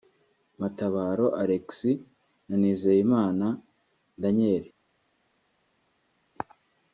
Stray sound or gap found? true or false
false